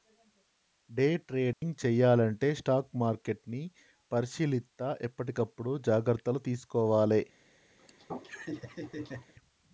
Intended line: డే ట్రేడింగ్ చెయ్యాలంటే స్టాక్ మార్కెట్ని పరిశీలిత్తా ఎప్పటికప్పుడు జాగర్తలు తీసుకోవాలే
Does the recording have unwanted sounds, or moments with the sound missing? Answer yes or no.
yes